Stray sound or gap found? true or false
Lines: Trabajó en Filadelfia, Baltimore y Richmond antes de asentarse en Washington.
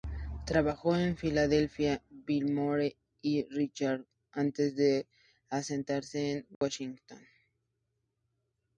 true